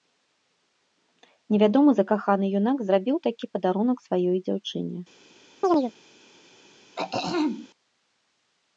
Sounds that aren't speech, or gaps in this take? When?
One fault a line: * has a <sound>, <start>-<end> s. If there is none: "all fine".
* has a chirp, 5.6-5.9 s
* has a throat clearing, 7.0-7.7 s